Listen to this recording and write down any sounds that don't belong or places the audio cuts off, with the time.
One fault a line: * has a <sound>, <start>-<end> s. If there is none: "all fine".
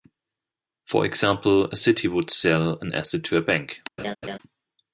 * has a laugh, 4.0-4.4 s